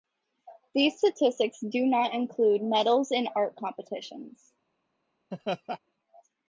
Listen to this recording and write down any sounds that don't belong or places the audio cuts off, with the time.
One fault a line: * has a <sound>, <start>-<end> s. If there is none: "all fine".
* has a laugh, 5.3-5.8 s